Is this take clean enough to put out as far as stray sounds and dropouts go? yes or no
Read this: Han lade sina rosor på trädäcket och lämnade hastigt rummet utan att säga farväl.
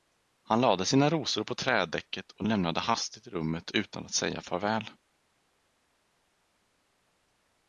yes